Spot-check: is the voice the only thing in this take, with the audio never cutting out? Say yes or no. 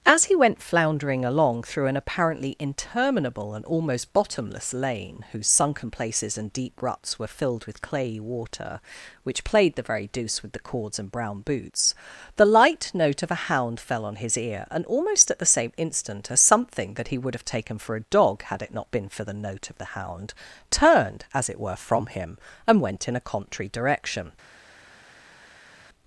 yes